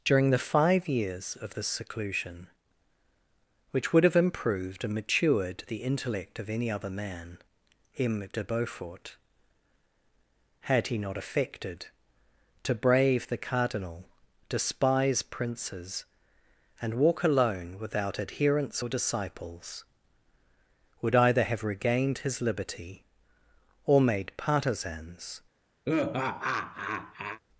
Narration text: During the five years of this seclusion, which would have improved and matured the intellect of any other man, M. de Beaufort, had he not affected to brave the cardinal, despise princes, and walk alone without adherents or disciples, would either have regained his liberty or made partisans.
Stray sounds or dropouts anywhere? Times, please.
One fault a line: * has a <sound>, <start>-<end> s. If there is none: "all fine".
* has a laugh, 25.8-27.4 s